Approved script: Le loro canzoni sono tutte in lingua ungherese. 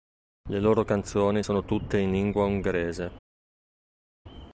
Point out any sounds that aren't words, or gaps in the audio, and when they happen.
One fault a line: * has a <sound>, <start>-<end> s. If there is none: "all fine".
all fine